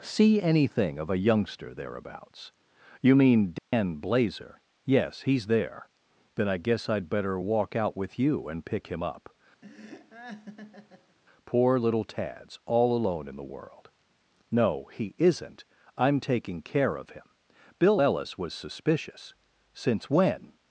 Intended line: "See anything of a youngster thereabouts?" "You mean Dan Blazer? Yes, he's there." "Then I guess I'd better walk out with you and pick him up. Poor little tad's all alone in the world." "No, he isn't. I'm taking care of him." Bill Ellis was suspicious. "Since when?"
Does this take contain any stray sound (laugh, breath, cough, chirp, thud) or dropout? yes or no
yes